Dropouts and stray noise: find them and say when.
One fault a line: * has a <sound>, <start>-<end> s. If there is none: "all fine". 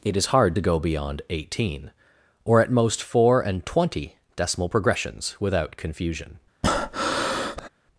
* has a breath, 6.6-7.7 s